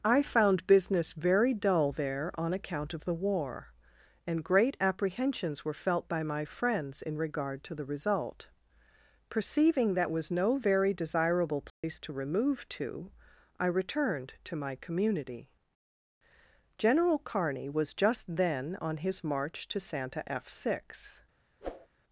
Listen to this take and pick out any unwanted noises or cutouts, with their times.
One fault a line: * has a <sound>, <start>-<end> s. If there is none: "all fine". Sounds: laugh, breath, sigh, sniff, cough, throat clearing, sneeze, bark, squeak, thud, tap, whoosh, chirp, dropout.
* has a dropout, 11.7-11.8 s
* has a whoosh, 21.6-21.9 s